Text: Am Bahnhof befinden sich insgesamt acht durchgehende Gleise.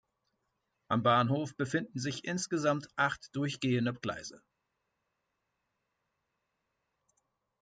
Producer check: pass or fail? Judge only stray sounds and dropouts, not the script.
pass